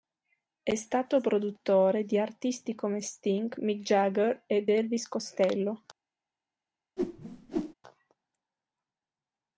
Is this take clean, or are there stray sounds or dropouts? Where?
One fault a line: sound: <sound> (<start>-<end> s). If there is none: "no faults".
sound: whoosh (7.0-7.7 s)